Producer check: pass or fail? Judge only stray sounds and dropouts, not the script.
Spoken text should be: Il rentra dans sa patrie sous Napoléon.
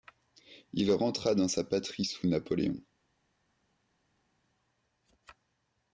pass